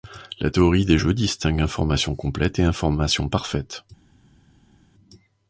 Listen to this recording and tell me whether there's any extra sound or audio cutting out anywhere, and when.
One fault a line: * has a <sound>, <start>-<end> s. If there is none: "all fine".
all fine